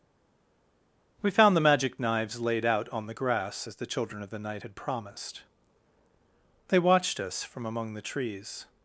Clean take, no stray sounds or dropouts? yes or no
yes